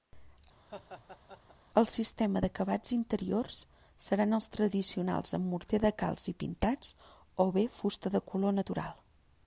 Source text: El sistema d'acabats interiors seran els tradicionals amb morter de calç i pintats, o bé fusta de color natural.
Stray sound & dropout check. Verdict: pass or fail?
fail